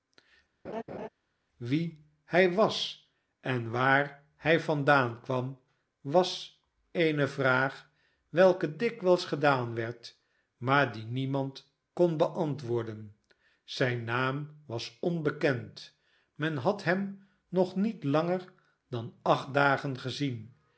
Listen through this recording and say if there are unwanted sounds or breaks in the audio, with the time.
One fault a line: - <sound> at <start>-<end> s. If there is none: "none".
- laugh at 0.6-1.1 s